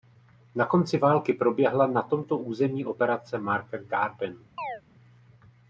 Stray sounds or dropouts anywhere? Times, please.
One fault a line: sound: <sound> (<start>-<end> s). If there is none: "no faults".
sound: chirp (4.6-4.8 s)